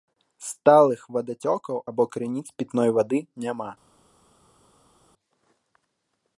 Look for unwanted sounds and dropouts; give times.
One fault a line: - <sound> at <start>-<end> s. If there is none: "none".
none